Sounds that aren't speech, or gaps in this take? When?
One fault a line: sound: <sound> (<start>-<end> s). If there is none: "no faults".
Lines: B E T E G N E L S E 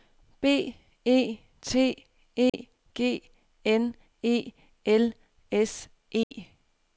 sound: dropout (2.5-2.5 s)
sound: dropout (6.2-6.3 s)